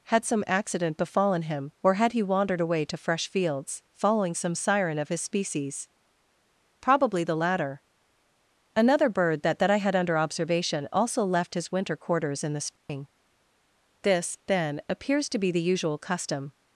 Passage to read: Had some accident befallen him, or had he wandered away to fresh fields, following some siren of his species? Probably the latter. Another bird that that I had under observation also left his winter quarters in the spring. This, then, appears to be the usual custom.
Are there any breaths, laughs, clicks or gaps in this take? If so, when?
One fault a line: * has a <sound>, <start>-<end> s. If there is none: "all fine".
* has a dropout, 12.8-12.9 s